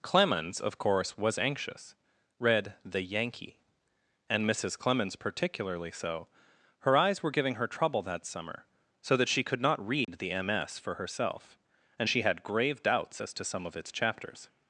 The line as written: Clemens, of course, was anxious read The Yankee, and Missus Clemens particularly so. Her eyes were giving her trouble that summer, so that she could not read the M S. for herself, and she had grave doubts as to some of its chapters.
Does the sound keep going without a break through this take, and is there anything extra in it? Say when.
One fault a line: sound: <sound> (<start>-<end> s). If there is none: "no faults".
sound: dropout (10.0-10.1 s)